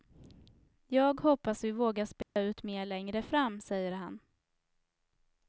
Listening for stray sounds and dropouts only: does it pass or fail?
fail